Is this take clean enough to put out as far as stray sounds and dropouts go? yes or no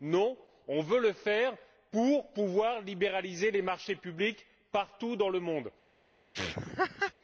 no